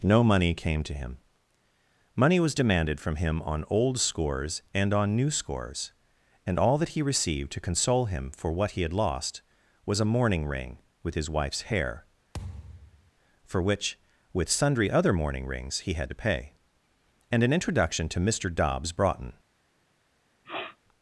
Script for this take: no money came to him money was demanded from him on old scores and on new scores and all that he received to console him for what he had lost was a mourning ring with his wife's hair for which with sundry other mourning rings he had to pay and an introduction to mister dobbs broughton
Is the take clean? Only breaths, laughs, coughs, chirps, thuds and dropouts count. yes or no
no